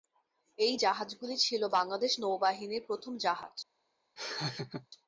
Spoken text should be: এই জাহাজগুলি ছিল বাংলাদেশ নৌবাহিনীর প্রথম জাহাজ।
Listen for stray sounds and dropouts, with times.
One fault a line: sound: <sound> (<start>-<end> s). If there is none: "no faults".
sound: laugh (4.2-4.9 s)